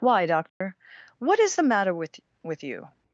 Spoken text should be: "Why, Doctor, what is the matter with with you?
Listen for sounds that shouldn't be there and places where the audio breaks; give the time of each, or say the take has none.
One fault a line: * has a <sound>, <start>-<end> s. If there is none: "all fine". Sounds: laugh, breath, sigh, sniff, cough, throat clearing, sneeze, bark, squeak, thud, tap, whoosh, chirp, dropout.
* has a dropout, 0.5-0.6 s